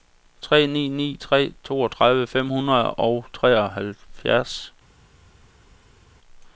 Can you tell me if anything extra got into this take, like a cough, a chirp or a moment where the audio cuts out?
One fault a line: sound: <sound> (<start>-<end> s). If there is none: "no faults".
no faults